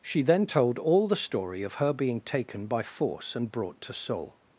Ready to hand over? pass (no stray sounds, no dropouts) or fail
pass